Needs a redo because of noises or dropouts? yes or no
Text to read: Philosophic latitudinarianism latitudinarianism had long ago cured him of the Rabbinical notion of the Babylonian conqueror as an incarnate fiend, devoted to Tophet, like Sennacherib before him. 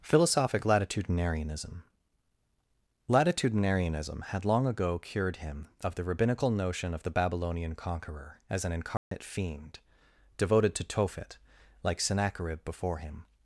yes